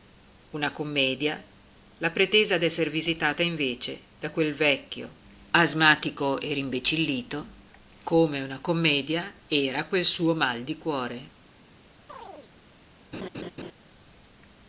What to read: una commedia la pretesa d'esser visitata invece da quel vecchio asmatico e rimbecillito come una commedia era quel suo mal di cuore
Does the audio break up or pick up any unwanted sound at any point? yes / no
yes